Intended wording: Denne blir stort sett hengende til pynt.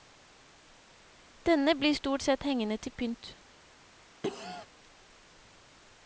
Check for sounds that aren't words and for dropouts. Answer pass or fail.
fail